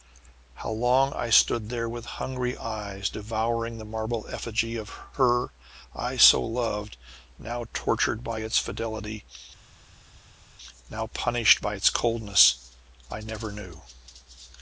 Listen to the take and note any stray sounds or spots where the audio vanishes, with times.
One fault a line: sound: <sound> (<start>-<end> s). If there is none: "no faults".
no faults